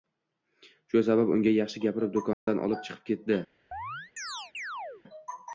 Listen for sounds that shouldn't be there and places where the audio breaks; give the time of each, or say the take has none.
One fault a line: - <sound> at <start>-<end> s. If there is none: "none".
- dropout at 2.3-2.5 s
- chirp at 3.7-5.0 s